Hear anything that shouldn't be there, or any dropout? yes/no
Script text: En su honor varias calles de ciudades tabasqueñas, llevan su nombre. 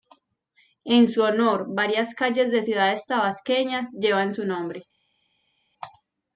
no